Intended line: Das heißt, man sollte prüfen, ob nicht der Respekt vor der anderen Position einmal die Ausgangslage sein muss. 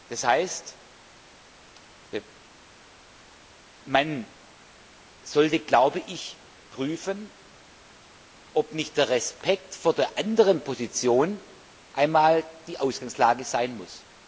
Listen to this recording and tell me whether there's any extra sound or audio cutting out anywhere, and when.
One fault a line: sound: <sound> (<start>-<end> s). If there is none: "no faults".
no faults